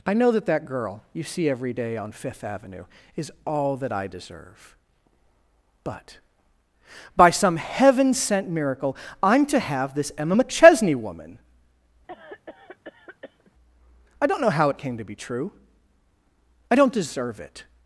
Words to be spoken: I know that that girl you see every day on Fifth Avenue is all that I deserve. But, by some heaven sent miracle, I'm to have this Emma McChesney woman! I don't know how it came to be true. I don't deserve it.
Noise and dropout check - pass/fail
fail